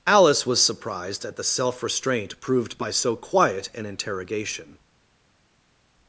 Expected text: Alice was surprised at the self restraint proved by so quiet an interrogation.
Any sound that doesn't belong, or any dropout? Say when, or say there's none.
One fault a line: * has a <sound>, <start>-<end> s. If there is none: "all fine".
all fine